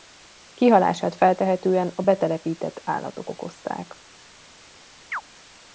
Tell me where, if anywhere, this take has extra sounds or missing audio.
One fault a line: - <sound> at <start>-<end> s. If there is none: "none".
- chirp at 5.1-5.2 s